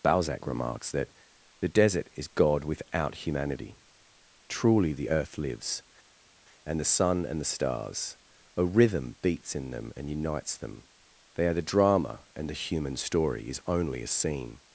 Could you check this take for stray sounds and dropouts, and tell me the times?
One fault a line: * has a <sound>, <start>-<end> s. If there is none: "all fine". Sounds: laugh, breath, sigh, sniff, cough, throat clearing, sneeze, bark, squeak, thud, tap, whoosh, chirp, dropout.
all fine